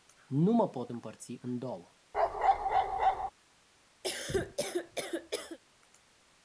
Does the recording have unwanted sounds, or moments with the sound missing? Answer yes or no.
yes